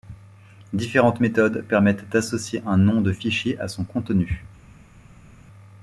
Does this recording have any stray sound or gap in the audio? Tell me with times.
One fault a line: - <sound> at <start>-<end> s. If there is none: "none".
none